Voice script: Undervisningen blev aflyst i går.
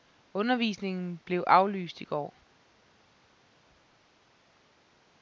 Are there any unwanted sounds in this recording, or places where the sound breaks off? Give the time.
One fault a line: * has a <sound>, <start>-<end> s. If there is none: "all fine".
all fine